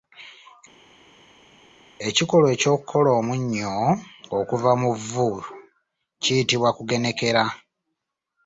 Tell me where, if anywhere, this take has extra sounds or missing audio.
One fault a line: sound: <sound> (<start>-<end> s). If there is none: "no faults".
no faults